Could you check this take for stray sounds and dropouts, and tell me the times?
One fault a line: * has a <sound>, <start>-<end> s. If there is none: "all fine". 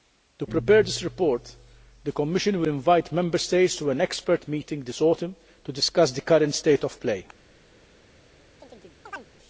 * has a chirp, 8.6-9.3 s